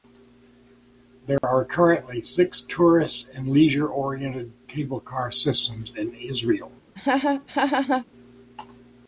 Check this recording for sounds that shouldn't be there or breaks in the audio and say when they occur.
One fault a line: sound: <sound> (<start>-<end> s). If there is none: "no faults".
sound: dropout (1.4-1.4 s)
sound: laugh (7.0-8.1 s)